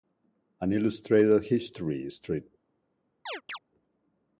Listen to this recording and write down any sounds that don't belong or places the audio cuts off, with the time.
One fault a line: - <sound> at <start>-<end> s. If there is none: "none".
- chirp at 3.3-3.6 s